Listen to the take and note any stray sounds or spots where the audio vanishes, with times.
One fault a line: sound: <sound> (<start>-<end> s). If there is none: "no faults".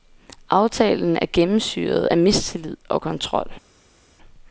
no faults